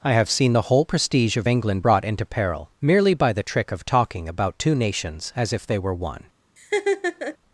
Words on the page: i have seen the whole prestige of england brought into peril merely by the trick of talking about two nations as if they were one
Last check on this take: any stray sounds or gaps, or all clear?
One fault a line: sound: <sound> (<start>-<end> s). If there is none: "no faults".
sound: laugh (6.6-7.4 s)